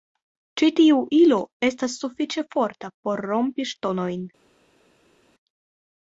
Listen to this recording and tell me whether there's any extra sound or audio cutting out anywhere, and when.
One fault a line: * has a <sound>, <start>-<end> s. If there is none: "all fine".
all fine